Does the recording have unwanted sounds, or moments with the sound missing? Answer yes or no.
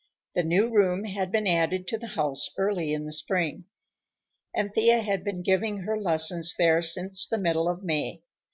no